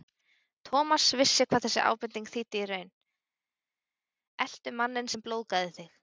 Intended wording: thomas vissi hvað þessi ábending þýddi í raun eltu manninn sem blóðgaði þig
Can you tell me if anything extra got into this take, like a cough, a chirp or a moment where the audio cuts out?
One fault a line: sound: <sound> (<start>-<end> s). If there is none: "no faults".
no faults